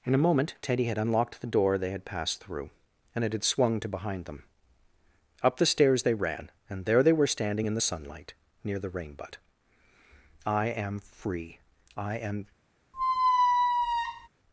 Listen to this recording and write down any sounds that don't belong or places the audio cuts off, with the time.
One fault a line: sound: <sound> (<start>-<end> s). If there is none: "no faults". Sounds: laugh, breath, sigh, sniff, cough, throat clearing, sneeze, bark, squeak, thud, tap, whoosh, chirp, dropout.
sound: squeak (12.9-14.3 s)